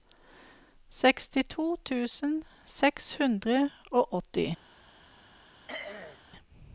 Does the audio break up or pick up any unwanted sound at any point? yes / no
yes